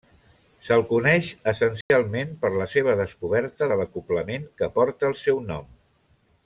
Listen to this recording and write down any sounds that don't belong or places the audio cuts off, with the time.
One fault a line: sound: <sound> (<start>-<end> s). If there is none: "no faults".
sound: dropout (1.8-1.9 s)